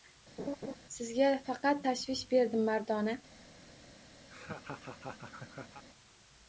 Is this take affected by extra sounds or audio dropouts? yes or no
yes